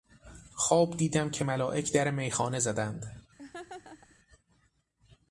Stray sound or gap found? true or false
true